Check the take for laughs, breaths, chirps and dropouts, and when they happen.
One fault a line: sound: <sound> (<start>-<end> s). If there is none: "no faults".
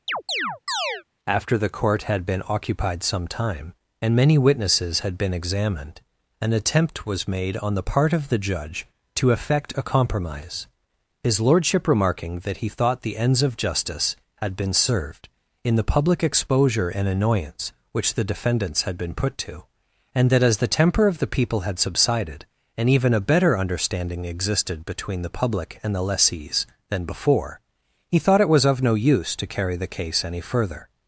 sound: chirp (0.1-1.0 s)